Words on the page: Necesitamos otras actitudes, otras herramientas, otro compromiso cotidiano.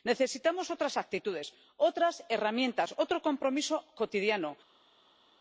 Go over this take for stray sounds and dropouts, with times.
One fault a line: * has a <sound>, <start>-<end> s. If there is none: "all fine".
all fine